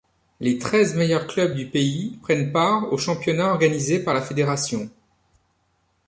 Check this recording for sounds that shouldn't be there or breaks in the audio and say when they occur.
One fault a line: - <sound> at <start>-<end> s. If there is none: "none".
none